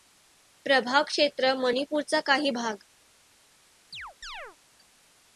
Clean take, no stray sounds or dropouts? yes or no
no